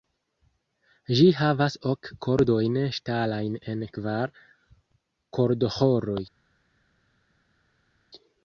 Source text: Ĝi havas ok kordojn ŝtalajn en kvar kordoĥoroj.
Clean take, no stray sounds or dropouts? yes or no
yes